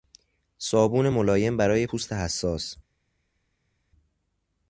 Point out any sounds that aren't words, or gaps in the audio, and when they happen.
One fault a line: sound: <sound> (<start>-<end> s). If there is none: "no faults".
no faults